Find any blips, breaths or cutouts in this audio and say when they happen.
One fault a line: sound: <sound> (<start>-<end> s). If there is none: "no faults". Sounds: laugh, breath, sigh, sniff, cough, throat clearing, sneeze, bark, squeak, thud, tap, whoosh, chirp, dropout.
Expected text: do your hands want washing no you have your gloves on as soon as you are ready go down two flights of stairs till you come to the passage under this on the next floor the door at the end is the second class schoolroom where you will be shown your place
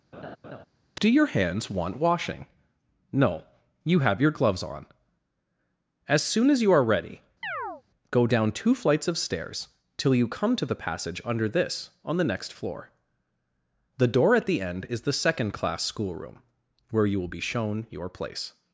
sound: laugh (0.1-0.7 s)
sound: chirp (7.4-7.8 s)